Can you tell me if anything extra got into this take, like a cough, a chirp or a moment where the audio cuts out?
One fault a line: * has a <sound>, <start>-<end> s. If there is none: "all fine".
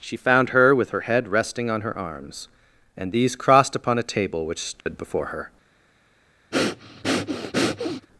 * has a dropout, 4.8-4.9 s
* has a breath, 6.5-8.1 s